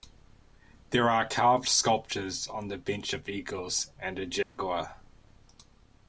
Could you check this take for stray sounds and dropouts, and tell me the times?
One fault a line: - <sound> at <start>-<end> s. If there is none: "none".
- dropout at 4.4-4.6 s